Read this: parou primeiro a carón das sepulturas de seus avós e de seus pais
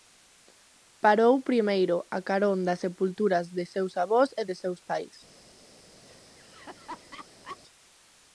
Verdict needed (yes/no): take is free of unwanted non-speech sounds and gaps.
no